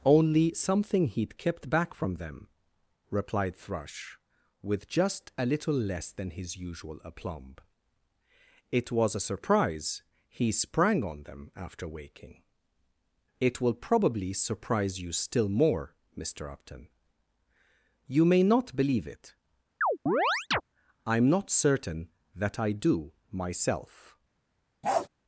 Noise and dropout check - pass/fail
fail